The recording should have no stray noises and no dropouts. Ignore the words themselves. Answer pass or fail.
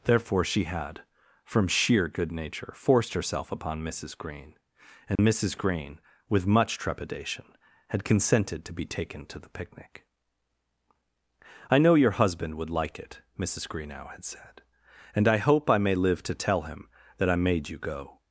fail